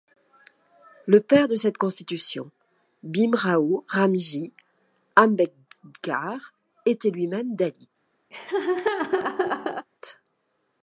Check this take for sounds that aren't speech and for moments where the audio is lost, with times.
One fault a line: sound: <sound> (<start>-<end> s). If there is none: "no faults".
sound: laugh (8.3-9.9 s)